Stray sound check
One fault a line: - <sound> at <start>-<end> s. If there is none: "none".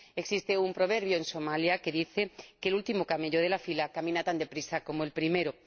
none